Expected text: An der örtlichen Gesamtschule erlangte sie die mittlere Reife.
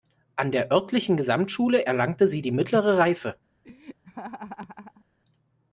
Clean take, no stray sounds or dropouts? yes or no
no